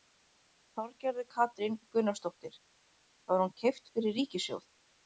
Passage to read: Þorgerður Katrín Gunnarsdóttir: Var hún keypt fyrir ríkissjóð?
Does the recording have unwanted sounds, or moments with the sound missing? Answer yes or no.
no